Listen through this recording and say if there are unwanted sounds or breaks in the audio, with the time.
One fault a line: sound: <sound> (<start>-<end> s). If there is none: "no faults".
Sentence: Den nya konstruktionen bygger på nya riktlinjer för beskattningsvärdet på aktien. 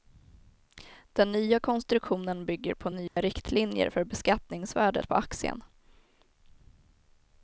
sound: dropout (3.1-3.2 s)